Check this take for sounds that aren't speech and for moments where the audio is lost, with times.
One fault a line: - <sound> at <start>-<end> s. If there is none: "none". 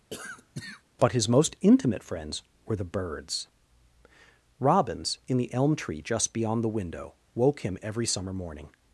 - cough at 0.1-0.8 s